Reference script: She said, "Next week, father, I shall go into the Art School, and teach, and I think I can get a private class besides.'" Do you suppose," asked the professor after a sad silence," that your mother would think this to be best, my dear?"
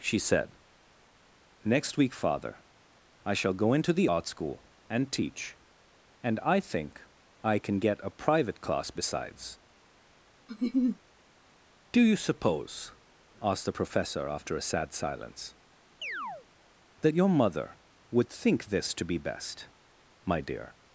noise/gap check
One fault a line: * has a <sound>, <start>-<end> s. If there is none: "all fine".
* has a laugh, 10.5-11.0 s
* has a chirp, 16.0-16.5 s